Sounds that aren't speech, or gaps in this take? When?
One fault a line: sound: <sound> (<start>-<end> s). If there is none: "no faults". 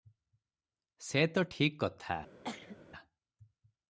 sound: cough (2.4-2.8 s)